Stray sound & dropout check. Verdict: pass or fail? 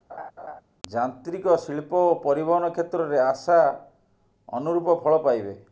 fail